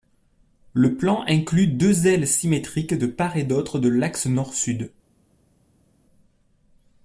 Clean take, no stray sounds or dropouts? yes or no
yes